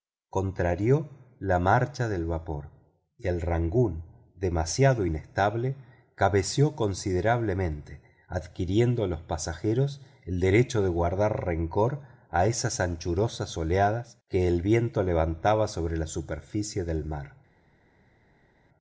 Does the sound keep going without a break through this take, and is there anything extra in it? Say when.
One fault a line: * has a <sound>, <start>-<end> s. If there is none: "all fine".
all fine